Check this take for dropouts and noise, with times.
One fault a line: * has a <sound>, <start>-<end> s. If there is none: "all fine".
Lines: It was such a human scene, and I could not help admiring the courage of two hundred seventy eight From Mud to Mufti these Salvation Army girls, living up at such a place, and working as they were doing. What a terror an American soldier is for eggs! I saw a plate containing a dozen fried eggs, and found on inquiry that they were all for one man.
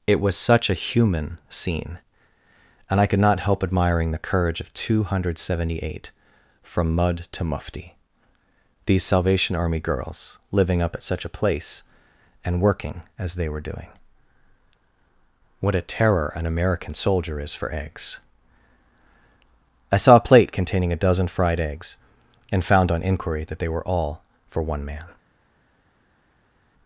all fine